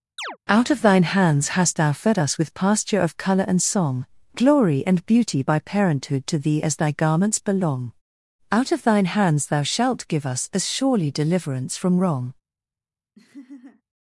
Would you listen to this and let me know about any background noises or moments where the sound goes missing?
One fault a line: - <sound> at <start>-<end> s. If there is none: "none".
- chirp at 0.2-0.4 s
- laugh at 13.1-13.8 s